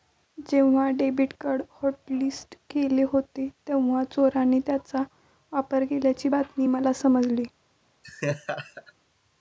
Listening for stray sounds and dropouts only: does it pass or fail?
fail